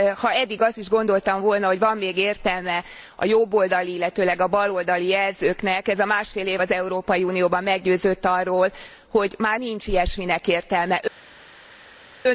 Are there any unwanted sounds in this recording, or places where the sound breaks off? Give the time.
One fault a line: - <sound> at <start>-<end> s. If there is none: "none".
none